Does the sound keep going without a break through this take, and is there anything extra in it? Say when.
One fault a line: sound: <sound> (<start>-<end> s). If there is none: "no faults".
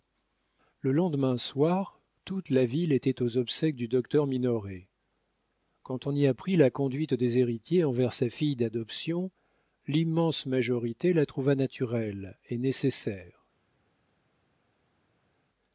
no faults